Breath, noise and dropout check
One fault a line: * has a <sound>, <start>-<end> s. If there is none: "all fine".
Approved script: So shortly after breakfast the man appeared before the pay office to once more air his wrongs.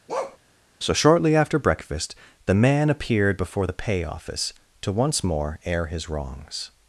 * has a bark, 0.1-0.4 s